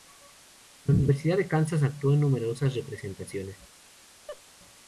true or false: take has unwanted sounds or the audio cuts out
true